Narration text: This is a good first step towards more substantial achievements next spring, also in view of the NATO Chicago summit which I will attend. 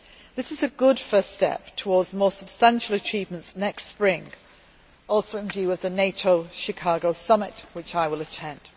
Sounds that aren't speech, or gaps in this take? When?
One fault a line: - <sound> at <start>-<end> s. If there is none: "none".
none